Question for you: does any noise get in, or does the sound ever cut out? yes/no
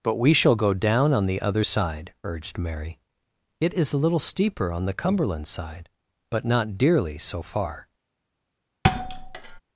yes